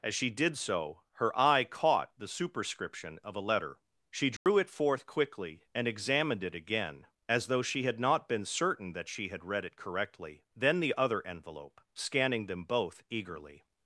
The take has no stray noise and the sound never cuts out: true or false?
false